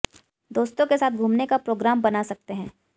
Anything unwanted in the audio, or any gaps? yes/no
no